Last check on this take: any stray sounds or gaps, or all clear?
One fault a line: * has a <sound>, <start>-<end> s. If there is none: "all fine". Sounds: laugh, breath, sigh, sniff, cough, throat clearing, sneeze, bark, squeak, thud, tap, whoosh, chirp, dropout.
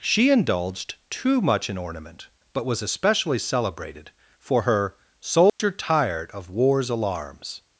* has a dropout, 5.5-5.6 s